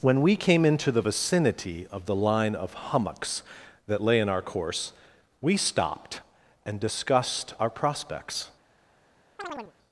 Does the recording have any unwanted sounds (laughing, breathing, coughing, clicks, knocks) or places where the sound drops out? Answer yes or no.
yes